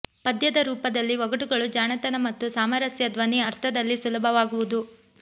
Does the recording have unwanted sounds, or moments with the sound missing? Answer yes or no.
no